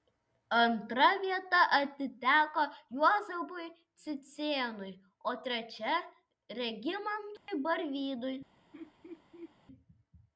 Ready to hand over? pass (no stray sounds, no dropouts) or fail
fail